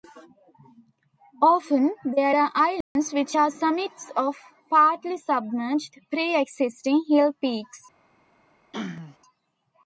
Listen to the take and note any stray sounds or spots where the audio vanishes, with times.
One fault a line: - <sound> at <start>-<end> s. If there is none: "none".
- dropout at 2.8-3.0 s
- throat clearing at 8.7-9.2 s